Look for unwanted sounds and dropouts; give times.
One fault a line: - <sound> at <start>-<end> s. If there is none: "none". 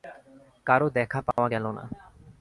- dropout at 1.3-1.4 s